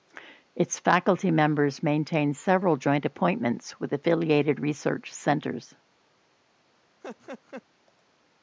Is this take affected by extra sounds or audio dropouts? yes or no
yes